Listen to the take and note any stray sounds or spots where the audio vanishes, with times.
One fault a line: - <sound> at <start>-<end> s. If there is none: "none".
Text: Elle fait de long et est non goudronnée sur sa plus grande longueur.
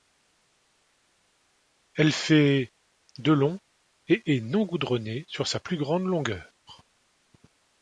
none